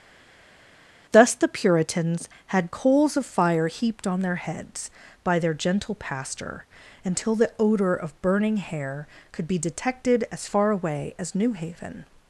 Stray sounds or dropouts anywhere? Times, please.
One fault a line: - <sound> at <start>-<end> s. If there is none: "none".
none